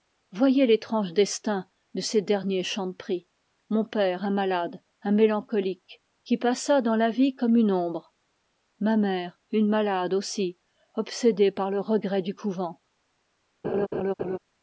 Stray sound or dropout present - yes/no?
yes